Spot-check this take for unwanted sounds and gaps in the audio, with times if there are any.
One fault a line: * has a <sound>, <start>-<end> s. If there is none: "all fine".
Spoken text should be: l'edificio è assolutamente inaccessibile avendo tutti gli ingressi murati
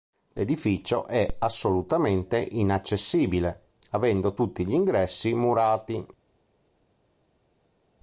all fine